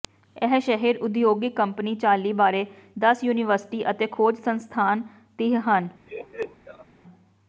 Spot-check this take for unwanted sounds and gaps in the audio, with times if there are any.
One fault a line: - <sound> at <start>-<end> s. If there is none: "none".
- laugh at 6.1-6.9 s